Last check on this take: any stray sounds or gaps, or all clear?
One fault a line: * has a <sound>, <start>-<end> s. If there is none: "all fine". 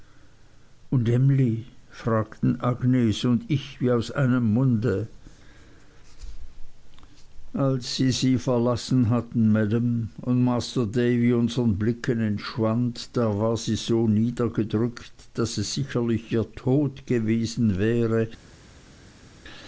all fine